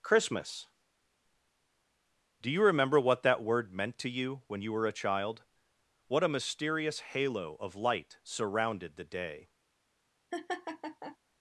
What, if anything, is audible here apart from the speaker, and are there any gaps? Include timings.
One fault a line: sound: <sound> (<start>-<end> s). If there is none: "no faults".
sound: laugh (10.3-11.2 s)